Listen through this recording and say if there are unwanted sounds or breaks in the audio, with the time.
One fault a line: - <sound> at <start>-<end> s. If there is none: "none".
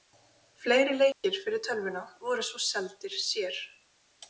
- dropout at 1.1-1.2 s